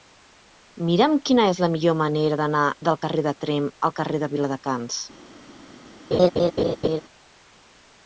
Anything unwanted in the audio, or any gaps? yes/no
yes